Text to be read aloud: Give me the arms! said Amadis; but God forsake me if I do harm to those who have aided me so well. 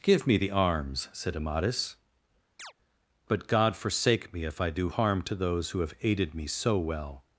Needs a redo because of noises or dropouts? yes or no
yes